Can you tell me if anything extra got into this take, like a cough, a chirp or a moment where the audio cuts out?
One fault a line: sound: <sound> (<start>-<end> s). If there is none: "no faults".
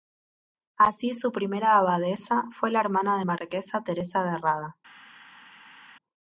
no faults